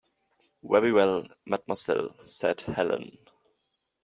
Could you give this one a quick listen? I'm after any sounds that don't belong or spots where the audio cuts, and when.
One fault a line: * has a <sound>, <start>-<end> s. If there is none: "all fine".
all fine